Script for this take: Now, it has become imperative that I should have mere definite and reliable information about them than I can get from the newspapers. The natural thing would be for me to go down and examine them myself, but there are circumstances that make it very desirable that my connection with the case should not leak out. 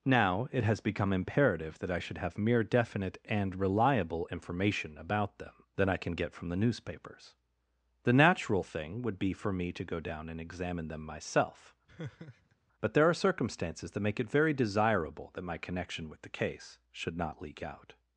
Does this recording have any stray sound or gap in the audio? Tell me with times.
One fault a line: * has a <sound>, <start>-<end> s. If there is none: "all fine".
* has a laugh, 11.9-12.6 s